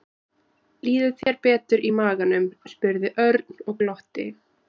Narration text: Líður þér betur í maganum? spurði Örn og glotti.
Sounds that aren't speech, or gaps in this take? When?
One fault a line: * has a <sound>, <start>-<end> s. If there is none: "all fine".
* has a dropout, 1.2-1.3 s